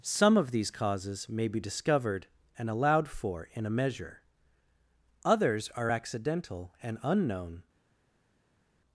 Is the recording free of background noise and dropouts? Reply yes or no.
yes